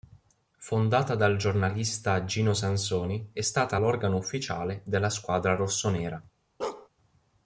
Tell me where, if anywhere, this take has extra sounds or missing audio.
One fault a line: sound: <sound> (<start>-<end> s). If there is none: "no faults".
sound: bark (6.6-6.9 s)